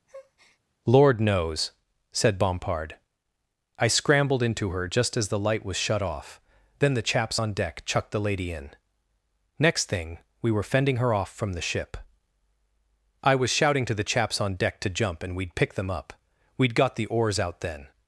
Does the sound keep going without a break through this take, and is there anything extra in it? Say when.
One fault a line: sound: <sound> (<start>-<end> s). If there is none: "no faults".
sound: breath (0.1-0.6 s)